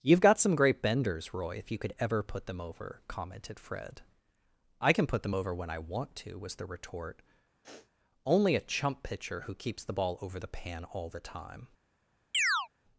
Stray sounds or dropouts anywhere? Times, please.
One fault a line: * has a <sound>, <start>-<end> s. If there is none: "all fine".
* has a sniff, 7.6-7.9 s
* has a chirp, 12.3-12.7 s